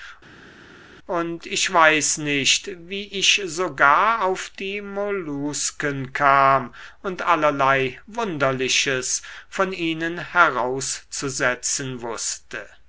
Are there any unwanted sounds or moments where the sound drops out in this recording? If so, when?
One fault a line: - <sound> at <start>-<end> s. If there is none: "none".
none